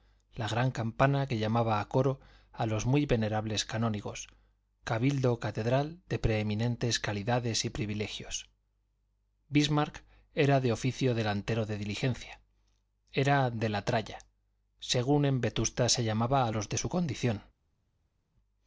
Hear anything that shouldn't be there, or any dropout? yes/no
no